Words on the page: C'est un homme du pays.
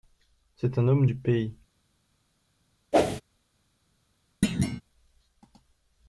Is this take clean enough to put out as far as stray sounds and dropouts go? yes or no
no